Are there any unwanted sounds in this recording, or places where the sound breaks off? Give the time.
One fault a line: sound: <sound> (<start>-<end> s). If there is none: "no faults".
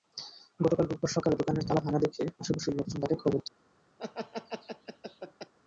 sound: laugh (4.0-5.5 s)